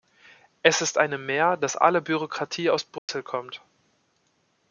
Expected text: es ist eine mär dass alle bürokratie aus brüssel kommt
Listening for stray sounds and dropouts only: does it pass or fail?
fail